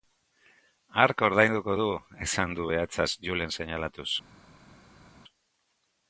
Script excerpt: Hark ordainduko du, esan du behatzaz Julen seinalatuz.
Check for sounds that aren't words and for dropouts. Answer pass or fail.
pass